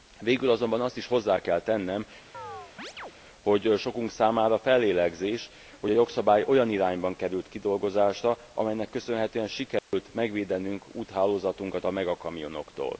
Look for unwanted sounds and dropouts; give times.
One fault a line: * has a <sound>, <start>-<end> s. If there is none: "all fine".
* has a chirp, 2.3-3.1 s
* has a dropout, 9.8-9.9 s